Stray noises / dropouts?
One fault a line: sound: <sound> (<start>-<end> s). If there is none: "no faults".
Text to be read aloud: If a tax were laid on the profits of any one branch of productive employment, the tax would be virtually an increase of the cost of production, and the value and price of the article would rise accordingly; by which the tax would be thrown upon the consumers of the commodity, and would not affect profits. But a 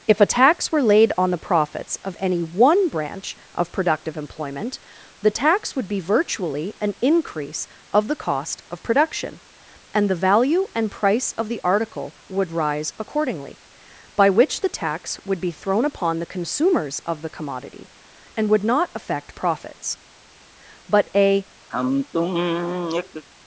sound: sigh (21.7-23.2 s)